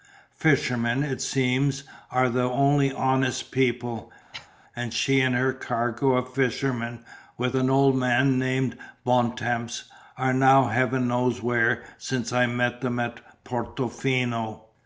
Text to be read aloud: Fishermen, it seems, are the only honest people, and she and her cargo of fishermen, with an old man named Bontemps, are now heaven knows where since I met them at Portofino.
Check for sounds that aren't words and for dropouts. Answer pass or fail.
fail